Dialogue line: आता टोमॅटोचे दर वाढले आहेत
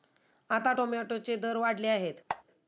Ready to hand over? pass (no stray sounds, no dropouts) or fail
fail